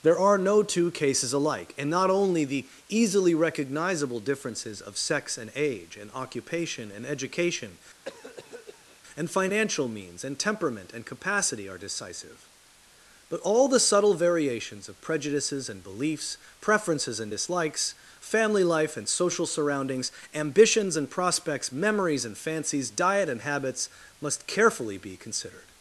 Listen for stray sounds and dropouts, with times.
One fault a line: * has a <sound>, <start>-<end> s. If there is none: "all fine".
* has a cough, 8.1-9.0 s